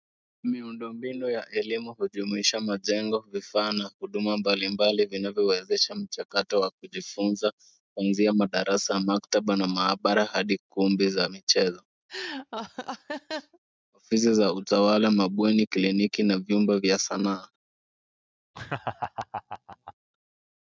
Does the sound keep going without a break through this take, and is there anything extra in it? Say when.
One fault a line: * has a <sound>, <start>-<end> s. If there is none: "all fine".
* has a laugh, 12.1-13.6 s
* has a laugh, 18.5-19.9 s